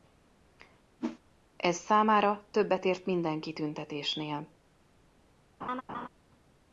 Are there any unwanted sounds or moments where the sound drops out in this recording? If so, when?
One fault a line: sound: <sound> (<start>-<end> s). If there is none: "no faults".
sound: whoosh (1.0-1.2 s)
sound: laugh (5.6-6.1 s)